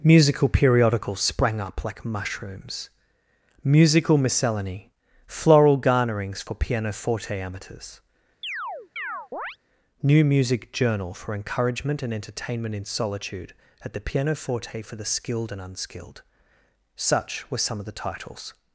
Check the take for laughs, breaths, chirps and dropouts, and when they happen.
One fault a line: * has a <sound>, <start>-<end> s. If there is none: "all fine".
* has a chirp, 8.4-9.6 s